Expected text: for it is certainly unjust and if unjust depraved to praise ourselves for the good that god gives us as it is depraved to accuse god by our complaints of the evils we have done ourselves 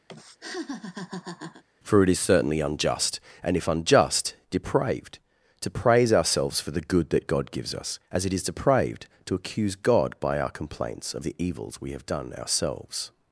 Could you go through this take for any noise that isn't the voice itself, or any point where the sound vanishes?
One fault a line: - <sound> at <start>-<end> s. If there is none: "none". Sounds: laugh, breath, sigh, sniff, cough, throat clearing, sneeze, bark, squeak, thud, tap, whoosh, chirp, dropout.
- laugh at 0.1-1.6 s